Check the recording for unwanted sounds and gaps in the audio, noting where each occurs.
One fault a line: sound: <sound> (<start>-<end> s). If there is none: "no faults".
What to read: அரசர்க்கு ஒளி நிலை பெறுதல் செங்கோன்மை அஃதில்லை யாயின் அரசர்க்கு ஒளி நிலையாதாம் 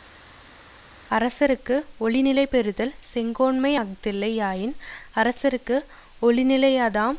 no faults